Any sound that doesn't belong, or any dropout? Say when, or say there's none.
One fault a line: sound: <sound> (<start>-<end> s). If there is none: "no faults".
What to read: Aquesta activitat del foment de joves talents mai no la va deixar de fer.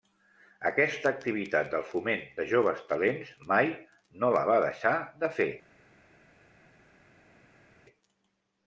no faults